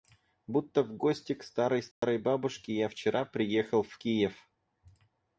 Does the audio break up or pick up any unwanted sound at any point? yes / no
yes